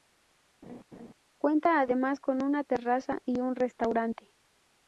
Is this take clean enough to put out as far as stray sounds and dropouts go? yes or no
no